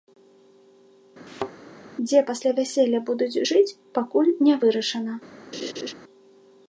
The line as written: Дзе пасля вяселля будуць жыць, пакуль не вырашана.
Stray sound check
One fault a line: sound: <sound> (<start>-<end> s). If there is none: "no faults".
sound: thud (1.3-1.5 s)
sound: laugh (5.5-5.9 s)